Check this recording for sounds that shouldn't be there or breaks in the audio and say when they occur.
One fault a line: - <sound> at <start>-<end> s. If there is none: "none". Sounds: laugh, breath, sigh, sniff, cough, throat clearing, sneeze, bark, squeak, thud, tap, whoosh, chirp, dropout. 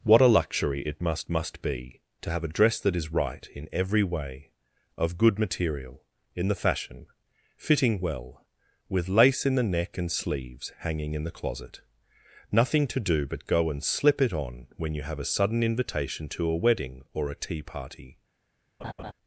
- laugh at 18.8-19.1 s